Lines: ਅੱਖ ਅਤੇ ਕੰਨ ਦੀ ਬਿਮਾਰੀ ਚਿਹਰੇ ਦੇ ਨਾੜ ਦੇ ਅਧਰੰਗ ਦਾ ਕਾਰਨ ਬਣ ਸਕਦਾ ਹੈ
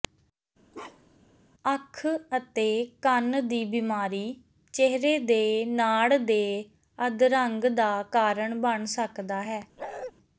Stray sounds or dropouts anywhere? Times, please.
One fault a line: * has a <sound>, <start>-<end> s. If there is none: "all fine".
* has a bark, 0.7-1.3 s
* has a bark, 9.8-10.1 s